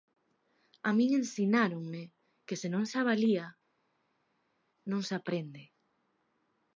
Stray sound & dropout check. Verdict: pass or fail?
pass